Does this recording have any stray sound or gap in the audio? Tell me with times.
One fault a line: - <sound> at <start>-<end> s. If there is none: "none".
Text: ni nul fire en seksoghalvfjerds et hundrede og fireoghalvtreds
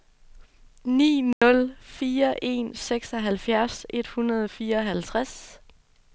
- dropout at 1.3-1.4 s